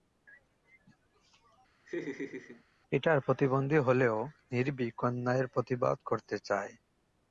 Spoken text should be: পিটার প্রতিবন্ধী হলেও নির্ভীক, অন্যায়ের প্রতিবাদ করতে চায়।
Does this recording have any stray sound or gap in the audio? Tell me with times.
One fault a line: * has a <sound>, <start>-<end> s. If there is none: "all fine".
* has a laugh, 1.9-2.6 s